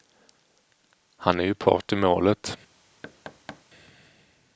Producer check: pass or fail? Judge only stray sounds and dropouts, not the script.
fail